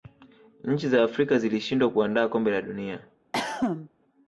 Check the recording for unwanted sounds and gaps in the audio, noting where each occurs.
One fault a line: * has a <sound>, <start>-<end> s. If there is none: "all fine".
* has a cough, 3.3-3.9 s